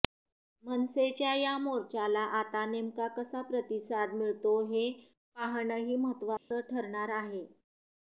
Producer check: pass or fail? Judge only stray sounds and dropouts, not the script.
fail